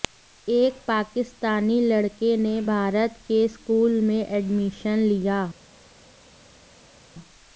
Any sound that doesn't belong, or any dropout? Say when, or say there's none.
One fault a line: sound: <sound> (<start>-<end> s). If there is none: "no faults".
no faults